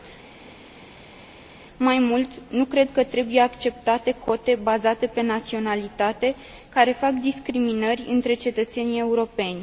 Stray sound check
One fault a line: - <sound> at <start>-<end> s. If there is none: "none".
none